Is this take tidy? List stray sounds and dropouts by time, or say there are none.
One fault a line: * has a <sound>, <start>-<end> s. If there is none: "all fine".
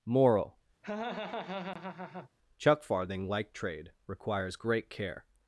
* has a laugh, 0.8-2.3 s